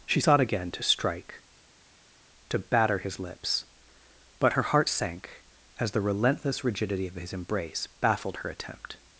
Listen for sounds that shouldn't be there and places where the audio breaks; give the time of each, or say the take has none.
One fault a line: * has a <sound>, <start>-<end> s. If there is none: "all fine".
all fine